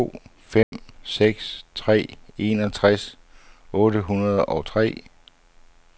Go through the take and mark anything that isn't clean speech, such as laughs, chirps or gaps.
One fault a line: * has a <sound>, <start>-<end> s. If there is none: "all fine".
* has a dropout, 0.6-0.7 s